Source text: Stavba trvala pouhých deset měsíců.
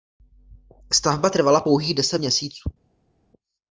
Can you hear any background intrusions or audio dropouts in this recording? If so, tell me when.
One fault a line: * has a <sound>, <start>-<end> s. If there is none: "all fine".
all fine